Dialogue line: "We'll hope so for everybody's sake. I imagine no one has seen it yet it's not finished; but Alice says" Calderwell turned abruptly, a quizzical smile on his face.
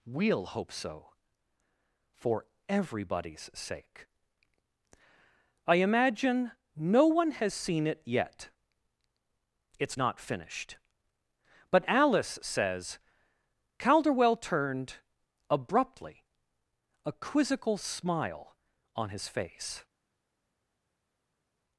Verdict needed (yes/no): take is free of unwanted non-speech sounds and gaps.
yes